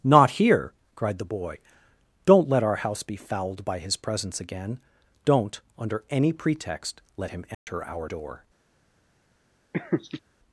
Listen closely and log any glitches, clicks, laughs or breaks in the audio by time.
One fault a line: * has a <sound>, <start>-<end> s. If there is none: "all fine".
* has a dropout, 7.5-7.7 s
* has a laugh, 9.7-10.2 s